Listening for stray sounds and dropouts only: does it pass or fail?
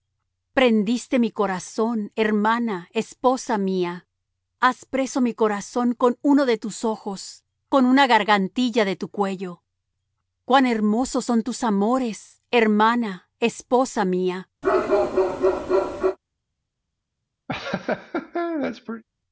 fail